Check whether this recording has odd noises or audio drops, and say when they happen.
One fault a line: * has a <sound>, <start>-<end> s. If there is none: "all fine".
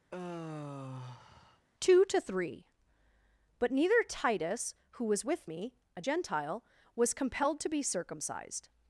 * has a sigh, 0.1-1.7 s